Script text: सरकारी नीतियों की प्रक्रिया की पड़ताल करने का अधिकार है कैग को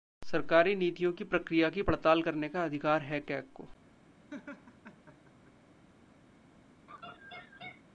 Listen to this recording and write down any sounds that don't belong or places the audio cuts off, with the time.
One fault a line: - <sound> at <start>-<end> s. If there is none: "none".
- laugh at 4.3-5.5 s
- laugh at 6.9-7.8 s